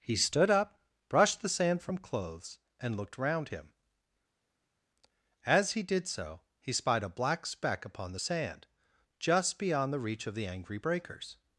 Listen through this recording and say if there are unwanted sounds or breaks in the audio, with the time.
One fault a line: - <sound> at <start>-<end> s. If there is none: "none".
none